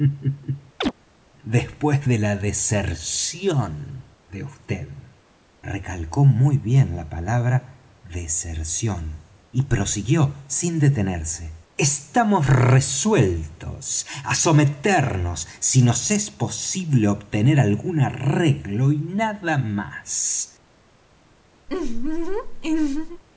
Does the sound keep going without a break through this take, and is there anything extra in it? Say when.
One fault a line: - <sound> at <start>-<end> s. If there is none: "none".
- chirp at 0.8-0.9 s
- laugh at 21.7-23.2 s